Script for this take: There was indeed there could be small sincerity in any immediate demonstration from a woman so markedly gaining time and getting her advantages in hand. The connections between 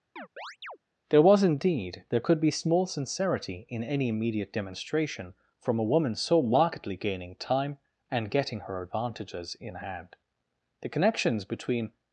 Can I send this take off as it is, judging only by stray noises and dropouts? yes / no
no